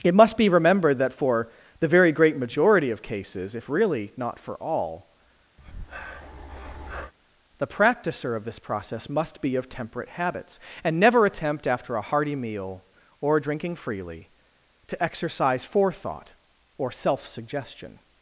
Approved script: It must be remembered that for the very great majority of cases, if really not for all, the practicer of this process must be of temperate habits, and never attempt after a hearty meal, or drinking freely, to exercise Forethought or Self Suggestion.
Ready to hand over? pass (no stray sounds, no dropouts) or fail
fail